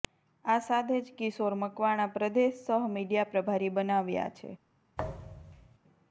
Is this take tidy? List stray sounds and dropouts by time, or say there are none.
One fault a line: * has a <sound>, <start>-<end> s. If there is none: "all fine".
* has a thud, 5.0-5.8 s